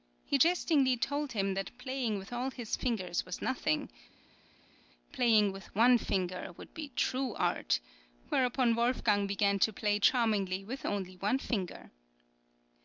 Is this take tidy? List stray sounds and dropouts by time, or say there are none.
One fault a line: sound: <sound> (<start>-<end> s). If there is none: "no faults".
no faults